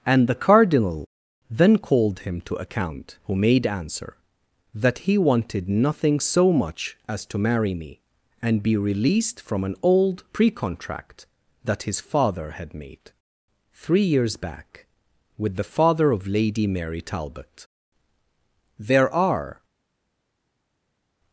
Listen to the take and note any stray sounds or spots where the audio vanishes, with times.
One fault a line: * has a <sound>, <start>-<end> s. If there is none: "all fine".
all fine